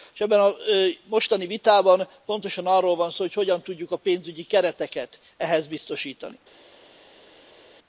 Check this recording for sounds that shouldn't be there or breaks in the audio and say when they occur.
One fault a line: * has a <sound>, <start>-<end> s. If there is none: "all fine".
all fine